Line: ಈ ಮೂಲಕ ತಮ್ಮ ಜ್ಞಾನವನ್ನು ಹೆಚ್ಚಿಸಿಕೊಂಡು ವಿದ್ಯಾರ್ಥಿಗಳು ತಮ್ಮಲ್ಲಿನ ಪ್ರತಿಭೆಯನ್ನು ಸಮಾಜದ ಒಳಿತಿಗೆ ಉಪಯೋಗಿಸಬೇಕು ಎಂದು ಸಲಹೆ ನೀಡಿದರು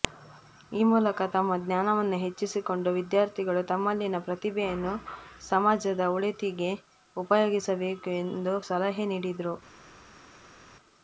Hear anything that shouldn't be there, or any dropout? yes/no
no